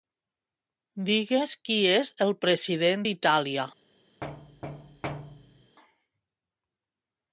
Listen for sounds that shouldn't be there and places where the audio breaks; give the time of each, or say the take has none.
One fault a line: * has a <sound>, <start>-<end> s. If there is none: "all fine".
* has a thud, 4.2-5.8 s